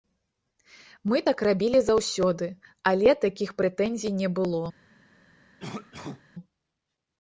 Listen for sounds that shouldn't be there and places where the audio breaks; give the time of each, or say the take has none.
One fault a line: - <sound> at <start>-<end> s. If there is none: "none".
- cough at 5.6-6.2 s